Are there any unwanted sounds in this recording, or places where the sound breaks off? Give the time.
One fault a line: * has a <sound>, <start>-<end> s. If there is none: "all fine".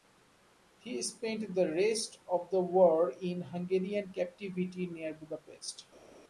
all fine